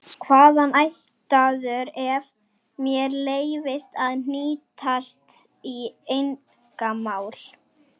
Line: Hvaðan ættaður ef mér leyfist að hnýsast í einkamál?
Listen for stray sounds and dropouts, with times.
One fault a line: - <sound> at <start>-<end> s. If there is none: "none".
none